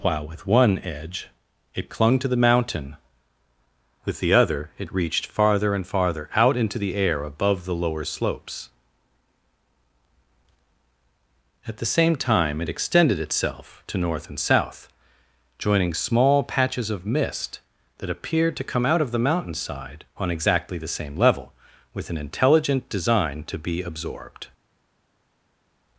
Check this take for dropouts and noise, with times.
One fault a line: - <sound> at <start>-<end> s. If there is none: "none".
none